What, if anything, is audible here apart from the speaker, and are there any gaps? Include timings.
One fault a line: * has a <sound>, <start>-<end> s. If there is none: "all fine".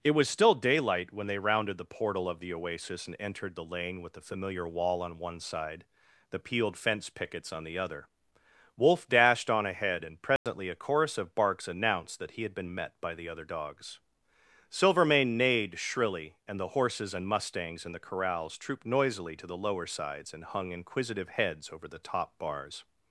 * has a dropout, 10.4-10.5 s